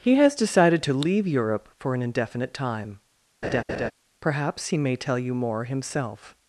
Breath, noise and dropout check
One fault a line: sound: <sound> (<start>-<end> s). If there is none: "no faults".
sound: laugh (3.4-3.9 s)